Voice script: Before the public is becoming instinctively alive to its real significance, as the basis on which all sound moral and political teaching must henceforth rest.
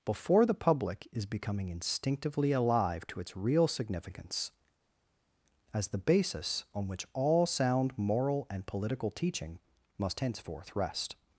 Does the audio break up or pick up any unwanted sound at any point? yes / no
no